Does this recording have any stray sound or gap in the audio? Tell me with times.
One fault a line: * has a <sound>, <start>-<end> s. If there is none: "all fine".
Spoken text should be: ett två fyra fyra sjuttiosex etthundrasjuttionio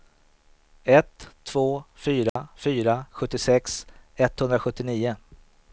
* has a dropout, 2.3-2.4 s